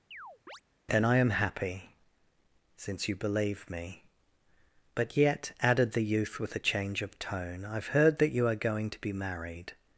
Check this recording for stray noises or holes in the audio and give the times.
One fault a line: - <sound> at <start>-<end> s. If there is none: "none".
- chirp at 0.1-0.6 s